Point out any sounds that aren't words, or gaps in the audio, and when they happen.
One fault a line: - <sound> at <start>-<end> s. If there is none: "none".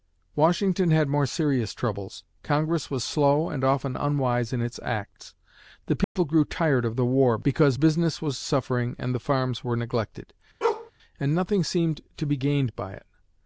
- dropout at 6.0-6.2 s
- bark at 10.6-10.9 s